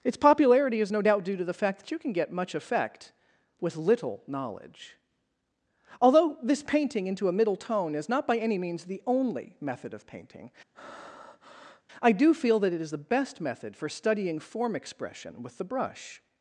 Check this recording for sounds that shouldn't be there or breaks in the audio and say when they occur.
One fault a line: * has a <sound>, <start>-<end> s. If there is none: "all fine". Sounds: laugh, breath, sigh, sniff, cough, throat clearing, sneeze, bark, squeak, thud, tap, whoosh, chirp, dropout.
* has a breath, 10.7-11.8 s